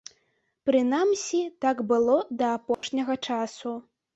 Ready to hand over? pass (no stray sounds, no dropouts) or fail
fail